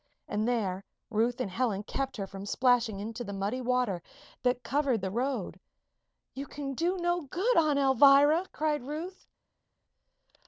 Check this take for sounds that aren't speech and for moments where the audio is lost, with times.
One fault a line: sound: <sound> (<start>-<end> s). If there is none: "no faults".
no faults